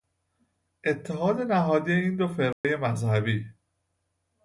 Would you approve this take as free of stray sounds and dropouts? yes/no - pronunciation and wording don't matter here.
no